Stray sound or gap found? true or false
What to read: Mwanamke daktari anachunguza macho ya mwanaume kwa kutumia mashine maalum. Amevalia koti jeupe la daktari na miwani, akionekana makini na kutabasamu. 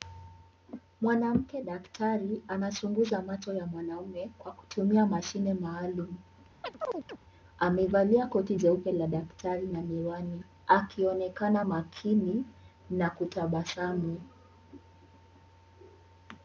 true